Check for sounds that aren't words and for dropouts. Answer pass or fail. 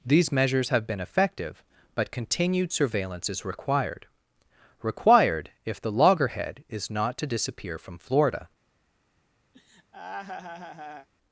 fail